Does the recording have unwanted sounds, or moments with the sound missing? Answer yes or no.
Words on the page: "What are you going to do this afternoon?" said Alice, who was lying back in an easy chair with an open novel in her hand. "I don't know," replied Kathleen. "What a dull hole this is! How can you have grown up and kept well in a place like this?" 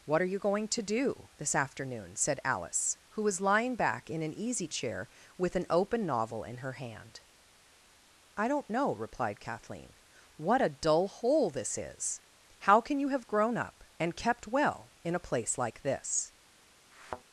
yes